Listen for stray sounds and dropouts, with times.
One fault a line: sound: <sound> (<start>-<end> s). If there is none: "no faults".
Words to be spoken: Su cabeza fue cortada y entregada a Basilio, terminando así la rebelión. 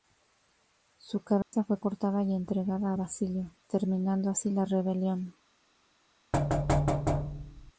sound: dropout (1.4-1.5 s)
sound: thud (6.3-7.7 s)